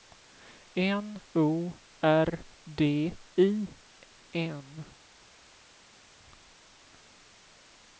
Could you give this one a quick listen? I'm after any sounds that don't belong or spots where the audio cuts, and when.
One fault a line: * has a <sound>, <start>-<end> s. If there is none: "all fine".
all fine